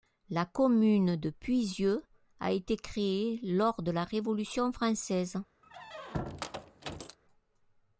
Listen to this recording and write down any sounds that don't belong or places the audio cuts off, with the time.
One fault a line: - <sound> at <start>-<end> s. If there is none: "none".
- squeak at 5.6-7.2 s